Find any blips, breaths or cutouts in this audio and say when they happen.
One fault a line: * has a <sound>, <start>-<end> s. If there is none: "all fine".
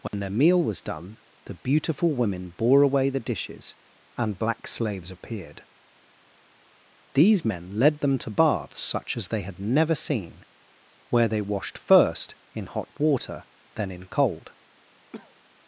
* has a dropout, 0.1-0.1 s
* has a cough, 15.1-15.3 s